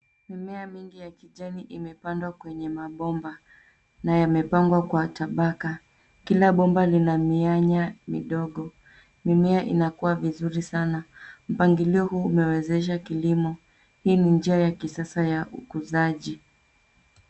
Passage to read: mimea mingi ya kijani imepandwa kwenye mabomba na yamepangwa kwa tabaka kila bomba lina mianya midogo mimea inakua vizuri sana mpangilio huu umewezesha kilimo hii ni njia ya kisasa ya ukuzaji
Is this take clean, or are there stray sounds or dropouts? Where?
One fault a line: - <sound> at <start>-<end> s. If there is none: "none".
none